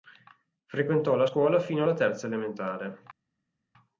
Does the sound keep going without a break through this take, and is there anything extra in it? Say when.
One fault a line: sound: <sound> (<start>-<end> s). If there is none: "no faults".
no faults